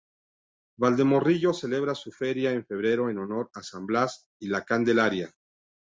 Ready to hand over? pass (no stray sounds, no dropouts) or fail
pass